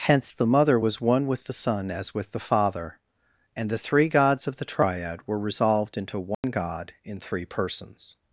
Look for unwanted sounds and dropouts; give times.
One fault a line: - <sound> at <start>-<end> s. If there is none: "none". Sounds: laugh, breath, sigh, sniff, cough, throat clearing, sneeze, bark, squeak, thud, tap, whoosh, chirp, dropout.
- dropout at 6.3-6.4 s